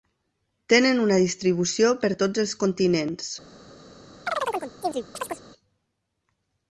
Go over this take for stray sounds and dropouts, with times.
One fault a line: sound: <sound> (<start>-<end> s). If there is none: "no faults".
sound: chirp (4.3-5.4 s)